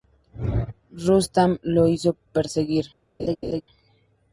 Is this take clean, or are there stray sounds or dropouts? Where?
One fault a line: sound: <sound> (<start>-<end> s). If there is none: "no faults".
sound: laugh (3.2-3.6 s)